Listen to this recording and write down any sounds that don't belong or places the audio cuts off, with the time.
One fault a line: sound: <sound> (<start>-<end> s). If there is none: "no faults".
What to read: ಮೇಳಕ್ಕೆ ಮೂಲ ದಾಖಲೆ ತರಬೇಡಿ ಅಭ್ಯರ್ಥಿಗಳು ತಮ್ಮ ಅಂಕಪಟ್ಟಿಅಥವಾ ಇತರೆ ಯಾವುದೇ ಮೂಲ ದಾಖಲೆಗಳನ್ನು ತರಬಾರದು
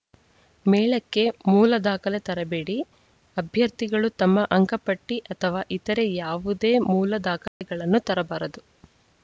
sound: dropout (7.5-7.6 s)